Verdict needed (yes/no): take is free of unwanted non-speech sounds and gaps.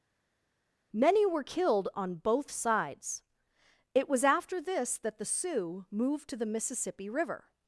yes